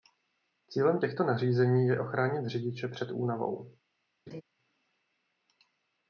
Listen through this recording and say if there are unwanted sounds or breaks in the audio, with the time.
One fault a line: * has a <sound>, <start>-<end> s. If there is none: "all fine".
* has a laugh, 4.3-4.4 s